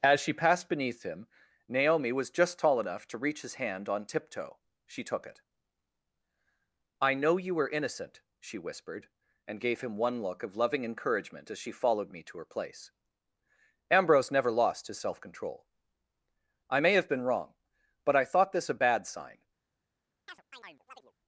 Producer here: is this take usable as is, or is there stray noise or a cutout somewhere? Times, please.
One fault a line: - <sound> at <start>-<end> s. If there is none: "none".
- chirp at 20.3-21.1 s